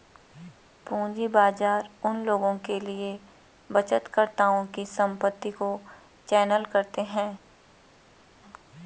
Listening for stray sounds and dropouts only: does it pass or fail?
pass